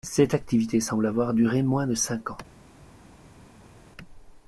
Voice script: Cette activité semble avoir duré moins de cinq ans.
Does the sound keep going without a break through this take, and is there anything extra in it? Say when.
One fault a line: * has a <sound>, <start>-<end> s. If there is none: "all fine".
all fine